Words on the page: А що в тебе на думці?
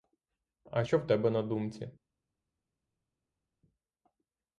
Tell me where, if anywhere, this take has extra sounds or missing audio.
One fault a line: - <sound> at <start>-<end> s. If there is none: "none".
none